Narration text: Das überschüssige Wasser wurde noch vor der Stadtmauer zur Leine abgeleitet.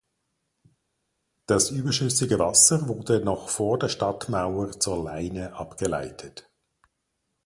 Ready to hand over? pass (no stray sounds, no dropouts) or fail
pass